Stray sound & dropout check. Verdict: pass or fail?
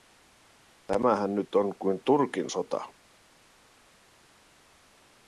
pass